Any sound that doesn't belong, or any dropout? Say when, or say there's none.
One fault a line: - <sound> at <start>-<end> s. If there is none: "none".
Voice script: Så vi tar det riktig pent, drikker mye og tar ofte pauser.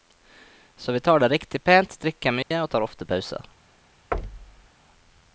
- dropout at 2.4-2.5 s
- thud at 4.1-4.7 s